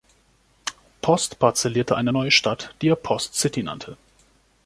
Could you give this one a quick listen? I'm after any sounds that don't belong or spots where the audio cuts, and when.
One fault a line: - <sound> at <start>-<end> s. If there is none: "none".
none